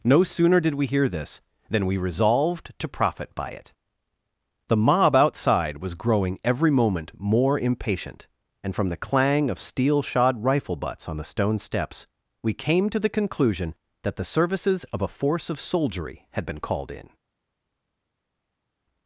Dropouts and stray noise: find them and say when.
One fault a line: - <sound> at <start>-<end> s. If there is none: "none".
none